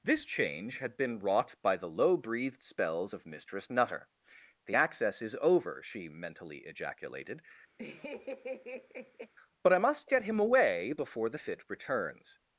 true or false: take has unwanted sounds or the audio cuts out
true